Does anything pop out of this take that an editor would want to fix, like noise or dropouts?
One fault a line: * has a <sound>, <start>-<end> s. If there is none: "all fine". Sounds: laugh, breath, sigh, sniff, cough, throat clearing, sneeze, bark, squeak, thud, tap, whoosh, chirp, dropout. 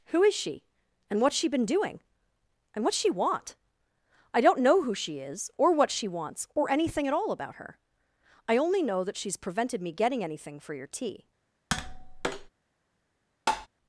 * has a tap, 11.7-12.5 s
* has a tap, 13.5-13.7 s